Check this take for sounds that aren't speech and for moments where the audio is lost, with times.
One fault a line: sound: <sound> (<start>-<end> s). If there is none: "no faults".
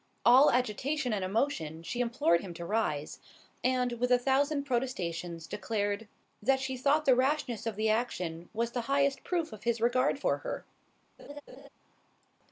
sound: laugh (11.2-11.7 s)